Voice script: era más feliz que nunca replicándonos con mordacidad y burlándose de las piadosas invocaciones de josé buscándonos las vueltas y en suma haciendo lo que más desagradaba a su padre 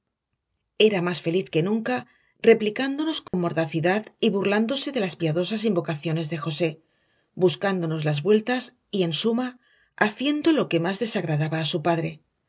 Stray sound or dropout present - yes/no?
yes